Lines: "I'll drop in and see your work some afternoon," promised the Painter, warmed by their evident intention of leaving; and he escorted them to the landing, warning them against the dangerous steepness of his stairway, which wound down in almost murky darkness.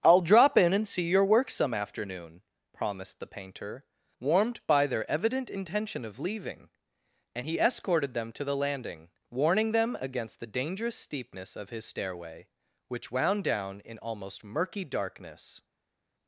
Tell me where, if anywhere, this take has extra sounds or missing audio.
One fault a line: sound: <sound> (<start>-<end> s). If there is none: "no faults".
no faults